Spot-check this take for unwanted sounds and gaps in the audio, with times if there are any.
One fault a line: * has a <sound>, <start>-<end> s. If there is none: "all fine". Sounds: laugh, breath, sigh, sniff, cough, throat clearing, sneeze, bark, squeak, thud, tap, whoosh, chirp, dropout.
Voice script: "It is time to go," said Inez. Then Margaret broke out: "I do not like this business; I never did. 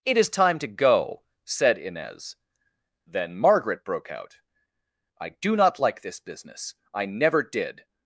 all fine